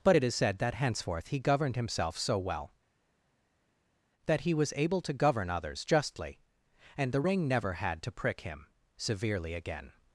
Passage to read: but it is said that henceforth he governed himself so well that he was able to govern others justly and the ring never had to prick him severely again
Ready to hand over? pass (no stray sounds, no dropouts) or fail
pass